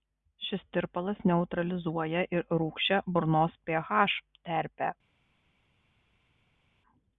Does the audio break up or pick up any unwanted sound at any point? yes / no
no